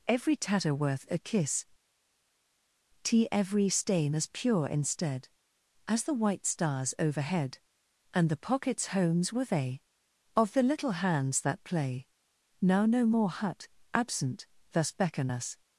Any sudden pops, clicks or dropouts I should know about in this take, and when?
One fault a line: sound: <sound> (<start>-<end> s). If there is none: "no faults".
no faults